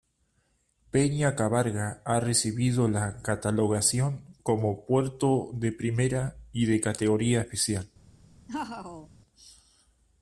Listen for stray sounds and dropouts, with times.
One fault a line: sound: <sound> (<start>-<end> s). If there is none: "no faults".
sound: laugh (8.5-9.1 s)